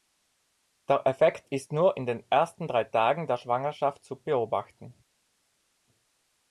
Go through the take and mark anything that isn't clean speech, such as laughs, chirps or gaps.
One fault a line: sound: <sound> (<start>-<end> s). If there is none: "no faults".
no faults